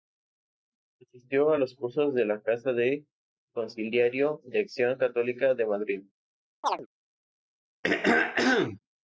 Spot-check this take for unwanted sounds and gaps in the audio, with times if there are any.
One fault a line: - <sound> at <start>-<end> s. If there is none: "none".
- chirp at 6.6-6.9 s
- throat clearing at 7.8-8.8 s